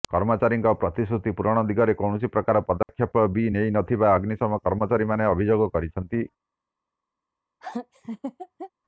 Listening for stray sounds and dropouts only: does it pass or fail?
fail